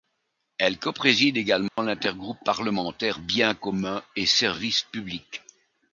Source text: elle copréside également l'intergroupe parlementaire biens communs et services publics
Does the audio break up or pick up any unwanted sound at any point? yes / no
yes